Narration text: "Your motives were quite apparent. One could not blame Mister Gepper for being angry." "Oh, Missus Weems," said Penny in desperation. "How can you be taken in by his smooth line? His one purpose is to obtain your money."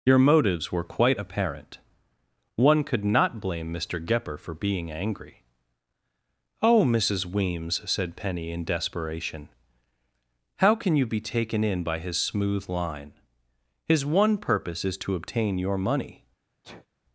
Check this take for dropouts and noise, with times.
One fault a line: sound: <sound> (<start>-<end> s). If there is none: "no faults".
sound: sneeze (16.6-16.9 s)